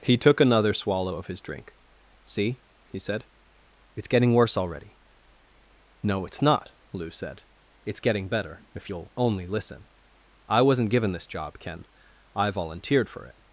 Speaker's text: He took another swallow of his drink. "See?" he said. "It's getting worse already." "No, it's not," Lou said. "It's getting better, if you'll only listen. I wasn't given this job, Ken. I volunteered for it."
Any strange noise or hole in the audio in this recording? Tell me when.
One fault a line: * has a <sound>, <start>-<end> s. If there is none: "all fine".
all fine